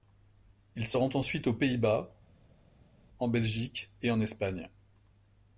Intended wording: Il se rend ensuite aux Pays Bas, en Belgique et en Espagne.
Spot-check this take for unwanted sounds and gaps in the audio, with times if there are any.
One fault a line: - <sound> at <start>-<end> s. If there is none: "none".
none